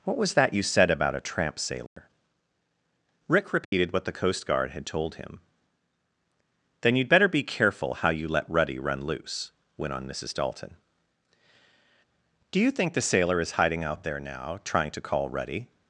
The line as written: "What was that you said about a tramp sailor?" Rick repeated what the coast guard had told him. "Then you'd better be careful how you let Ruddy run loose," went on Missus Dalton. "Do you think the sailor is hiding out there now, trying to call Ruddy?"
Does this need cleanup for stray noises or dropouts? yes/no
yes